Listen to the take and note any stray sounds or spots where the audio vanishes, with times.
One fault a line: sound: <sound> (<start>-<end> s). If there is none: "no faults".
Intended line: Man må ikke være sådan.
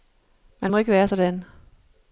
no faults